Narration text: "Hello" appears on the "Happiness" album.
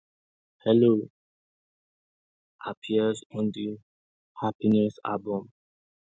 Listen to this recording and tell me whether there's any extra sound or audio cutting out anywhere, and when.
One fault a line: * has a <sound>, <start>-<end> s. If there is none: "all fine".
all fine